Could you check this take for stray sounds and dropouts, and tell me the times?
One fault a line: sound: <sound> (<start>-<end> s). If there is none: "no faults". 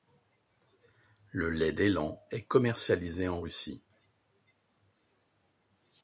no faults